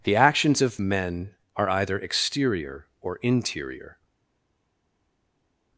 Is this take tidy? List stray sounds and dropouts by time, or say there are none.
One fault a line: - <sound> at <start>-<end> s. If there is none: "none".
none